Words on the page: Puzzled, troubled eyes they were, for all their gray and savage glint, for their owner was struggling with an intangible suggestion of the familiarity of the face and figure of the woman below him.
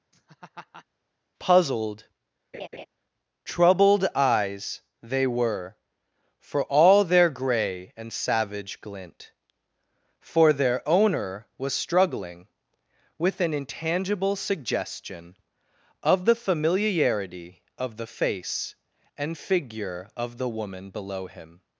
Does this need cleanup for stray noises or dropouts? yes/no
yes